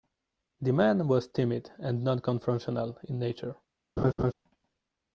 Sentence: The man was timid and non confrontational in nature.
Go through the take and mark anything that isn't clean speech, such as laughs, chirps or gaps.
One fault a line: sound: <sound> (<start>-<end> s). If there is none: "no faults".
sound: laugh (4.0-4.3 s)